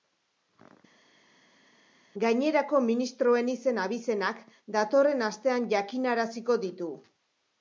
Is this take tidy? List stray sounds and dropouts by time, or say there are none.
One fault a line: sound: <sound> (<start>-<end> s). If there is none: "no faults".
no faults